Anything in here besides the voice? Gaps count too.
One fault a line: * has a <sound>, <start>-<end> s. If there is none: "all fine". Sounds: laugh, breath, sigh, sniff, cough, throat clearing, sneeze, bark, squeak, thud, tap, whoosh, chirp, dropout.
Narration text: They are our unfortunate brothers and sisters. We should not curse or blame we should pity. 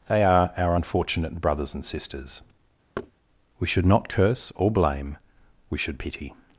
* has a thud, 3.0-3.1 s